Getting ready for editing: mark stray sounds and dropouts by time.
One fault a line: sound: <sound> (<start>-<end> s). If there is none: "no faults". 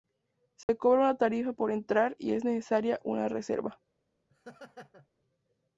sound: dropout (0.6-0.7 s)
sound: laugh (4.3-5.1 s)